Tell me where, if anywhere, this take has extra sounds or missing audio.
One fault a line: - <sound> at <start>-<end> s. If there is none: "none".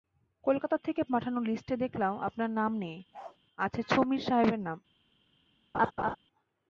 - bark at 3.1-3.4 s
- laugh at 5.7-6.2 s